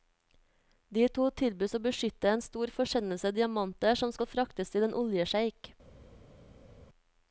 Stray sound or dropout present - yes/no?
no